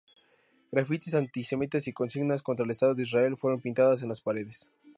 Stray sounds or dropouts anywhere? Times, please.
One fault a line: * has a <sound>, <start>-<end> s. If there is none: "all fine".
all fine